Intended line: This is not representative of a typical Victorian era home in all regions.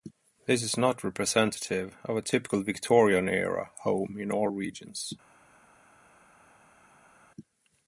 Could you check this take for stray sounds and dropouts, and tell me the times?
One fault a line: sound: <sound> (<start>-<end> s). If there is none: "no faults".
no faults